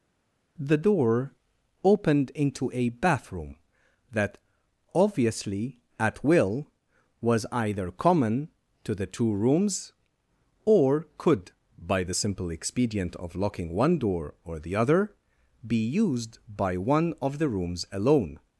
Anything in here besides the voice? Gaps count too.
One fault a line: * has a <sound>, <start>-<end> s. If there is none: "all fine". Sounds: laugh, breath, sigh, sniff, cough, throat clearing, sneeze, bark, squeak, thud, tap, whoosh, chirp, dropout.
all fine